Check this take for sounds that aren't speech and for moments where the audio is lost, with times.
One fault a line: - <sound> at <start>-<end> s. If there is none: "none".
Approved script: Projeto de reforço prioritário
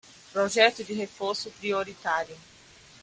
none